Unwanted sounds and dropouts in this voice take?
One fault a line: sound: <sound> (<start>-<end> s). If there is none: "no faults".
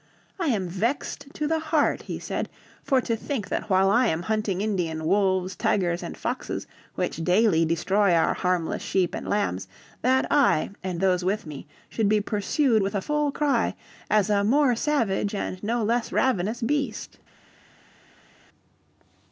no faults